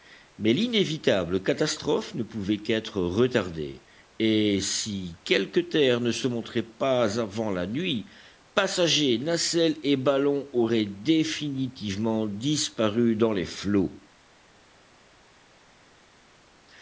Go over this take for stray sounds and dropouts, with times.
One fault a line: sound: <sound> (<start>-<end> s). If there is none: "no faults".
no faults